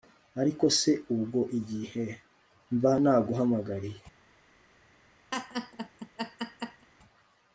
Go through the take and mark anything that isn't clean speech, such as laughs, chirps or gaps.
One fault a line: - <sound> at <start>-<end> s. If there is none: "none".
- laugh at 5.3-6.9 s